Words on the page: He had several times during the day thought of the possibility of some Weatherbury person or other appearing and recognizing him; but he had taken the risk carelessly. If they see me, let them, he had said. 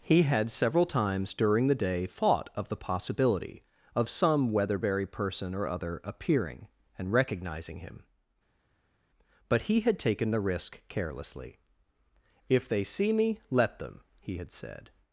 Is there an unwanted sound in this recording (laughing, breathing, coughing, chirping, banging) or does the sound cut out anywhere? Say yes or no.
no